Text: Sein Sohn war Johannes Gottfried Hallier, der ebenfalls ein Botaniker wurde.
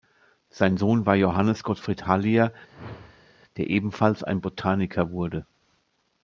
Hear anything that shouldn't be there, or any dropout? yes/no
yes